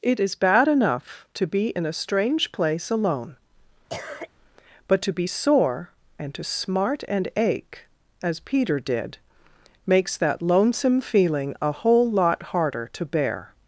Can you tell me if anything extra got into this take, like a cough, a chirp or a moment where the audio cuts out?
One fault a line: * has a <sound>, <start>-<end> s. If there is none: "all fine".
* has a cough, 3.9-4.3 s